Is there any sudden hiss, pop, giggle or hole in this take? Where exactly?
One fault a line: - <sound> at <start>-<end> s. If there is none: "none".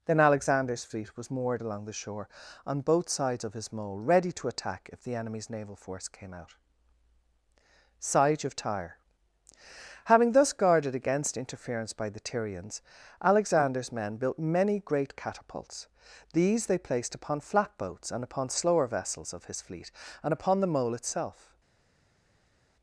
none